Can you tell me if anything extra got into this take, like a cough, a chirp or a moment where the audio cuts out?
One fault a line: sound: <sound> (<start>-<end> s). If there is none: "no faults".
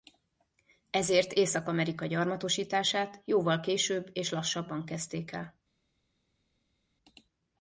no faults